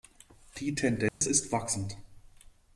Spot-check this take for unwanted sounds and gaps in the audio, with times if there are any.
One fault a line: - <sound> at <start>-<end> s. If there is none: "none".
- dropout at 1.1-1.2 s